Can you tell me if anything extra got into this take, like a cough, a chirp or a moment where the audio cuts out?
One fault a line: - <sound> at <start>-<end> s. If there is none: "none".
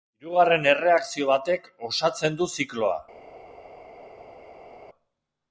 none